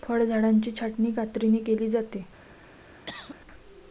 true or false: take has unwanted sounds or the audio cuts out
true